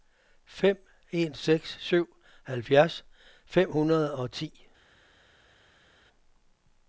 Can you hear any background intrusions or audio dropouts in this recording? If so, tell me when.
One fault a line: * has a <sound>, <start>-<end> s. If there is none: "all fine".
all fine